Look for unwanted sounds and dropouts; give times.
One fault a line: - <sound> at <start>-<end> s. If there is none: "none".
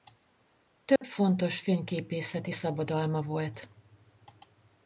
- dropout at 1.0-1.0 s